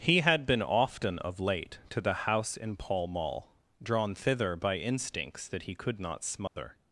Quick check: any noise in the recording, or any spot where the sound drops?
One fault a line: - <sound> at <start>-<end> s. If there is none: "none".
- dropout at 6.5-6.6 s